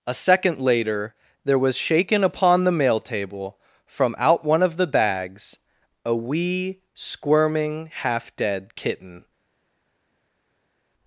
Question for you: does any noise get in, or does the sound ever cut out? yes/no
no